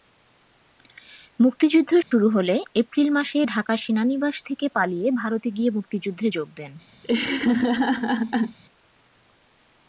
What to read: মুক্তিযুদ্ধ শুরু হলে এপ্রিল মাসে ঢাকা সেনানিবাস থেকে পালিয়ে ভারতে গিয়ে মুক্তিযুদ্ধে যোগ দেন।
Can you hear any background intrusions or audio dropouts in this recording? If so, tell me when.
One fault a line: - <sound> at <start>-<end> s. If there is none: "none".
- dropout at 2.0-2.1 s
- laugh at 7.0-8.6 s